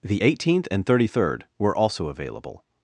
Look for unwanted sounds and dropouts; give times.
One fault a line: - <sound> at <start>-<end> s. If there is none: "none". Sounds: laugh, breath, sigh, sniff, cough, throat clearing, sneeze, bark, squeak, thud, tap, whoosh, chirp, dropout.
none